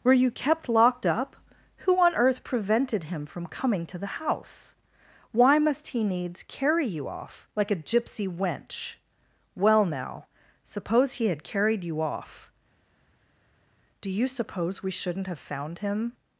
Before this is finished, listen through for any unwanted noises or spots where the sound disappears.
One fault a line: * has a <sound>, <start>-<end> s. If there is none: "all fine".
all fine